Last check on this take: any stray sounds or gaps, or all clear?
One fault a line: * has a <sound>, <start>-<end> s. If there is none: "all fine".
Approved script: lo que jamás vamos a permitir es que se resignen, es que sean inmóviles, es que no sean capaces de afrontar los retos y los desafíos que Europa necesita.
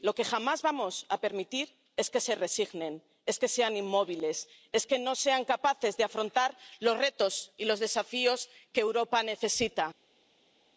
all fine